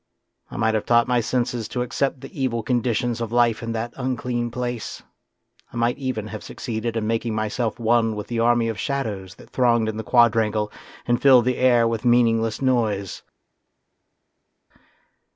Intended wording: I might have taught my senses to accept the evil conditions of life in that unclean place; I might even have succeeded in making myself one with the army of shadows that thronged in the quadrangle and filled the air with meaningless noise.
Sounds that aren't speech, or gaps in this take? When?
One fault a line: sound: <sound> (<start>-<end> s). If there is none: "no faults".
no faults